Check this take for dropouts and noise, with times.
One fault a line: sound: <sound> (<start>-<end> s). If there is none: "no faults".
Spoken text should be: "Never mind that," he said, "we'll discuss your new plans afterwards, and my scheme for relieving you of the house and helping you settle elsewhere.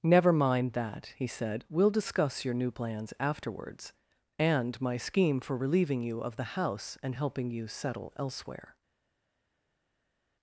no faults